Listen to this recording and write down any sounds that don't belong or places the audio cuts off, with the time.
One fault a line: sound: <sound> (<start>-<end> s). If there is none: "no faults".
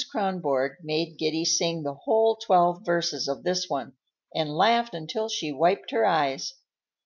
no faults